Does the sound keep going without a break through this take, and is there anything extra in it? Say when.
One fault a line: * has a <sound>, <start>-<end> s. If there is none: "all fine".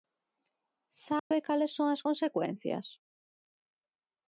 * has a dropout, 1.2-1.3 s